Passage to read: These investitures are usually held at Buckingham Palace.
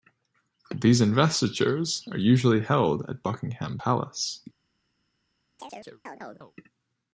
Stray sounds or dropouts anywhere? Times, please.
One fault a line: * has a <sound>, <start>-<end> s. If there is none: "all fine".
* has a chirp, 5.6-6.5 s